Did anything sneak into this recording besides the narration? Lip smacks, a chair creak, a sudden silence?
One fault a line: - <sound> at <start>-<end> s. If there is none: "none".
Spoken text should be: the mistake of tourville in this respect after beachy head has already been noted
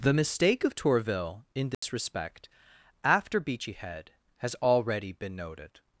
- dropout at 1.7-1.8 s